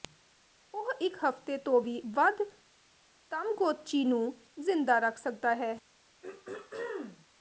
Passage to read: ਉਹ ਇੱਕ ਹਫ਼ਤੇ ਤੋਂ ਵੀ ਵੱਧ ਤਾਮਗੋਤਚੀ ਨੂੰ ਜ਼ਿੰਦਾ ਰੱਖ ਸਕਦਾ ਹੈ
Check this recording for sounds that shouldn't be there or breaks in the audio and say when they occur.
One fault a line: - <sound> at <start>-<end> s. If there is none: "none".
- throat clearing at 6.2-7.3 s